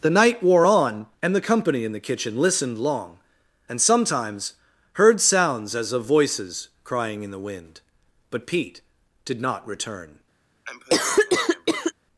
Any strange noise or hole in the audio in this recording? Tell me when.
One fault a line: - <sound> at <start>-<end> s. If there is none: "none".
- cough at 10.6-11.9 s